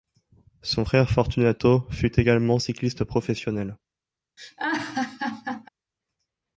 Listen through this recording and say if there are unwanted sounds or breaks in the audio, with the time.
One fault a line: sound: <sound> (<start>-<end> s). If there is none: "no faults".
sound: laugh (4.4-5.7 s)